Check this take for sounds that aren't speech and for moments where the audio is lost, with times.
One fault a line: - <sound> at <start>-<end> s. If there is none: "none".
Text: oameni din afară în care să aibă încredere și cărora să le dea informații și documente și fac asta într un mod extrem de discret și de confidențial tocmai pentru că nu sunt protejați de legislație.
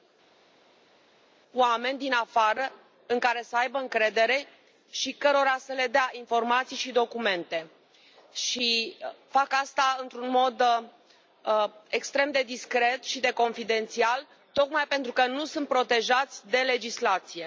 none